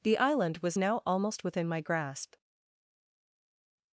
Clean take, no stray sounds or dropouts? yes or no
yes